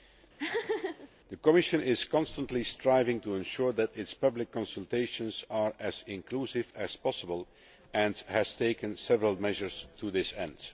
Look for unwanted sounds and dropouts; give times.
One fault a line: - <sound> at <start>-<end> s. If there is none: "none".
- laugh at 0.4-1.1 s